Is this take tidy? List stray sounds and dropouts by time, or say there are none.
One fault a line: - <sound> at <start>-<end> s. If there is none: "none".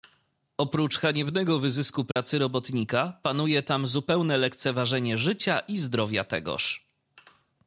- dropout at 2.1-2.2 s